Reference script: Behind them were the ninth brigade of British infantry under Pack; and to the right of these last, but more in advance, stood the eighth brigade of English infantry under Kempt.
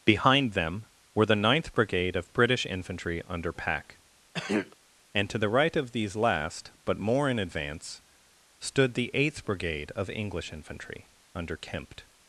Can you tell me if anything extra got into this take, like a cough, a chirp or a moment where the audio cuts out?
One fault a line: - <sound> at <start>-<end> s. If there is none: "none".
- throat clearing at 4.3-4.8 s